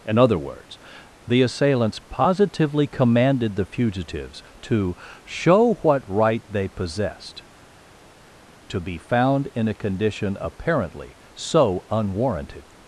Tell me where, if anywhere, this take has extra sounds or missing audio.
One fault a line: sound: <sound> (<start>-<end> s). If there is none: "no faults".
no faults